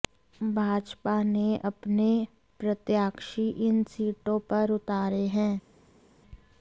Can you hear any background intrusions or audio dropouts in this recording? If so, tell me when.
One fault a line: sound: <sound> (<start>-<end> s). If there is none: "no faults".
no faults